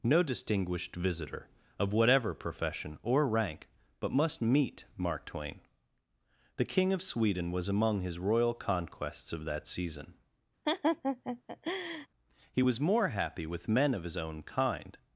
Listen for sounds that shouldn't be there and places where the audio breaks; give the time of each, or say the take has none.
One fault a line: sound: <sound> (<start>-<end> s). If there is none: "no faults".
sound: laugh (10.7-12.1 s)